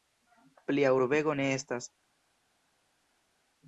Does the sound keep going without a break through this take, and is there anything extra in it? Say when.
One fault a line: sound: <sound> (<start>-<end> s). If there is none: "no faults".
no faults